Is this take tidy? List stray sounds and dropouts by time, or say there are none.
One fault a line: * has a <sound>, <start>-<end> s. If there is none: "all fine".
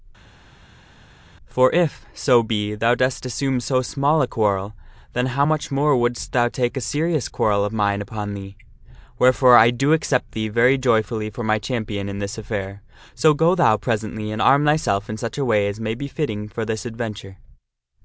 all fine